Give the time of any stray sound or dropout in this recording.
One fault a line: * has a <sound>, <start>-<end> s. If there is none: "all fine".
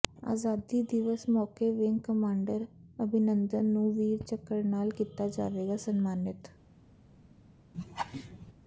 * has a laugh, 7.7-8.5 s